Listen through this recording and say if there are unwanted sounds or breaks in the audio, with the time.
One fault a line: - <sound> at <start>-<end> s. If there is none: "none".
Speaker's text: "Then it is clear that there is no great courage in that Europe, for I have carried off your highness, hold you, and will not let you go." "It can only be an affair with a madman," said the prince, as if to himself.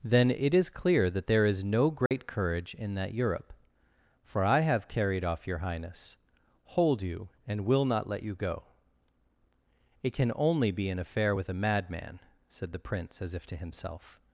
- dropout at 2.1-2.1 s